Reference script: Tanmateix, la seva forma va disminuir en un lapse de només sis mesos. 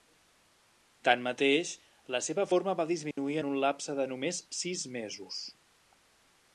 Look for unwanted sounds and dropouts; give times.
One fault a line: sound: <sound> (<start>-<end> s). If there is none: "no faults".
sound: dropout (3.1-3.2 s)